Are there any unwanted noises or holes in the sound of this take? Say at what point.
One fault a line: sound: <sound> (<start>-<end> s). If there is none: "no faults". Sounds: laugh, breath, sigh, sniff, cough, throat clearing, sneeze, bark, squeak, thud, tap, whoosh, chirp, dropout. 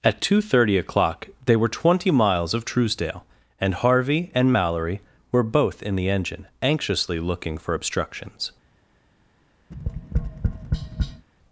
sound: tap (9.7-11.3 s)